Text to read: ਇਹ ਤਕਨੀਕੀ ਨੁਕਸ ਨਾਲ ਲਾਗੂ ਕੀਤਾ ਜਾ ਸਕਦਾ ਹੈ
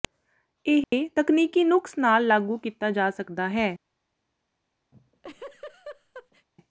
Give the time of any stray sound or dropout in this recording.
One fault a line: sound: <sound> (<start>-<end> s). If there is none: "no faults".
sound: dropout (0.8-0.9 s)
sound: laugh (4.9-6.5 s)